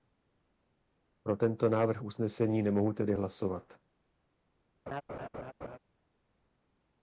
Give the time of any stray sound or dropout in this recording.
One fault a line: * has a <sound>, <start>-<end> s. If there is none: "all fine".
* has a laugh, 4.9-5.8 s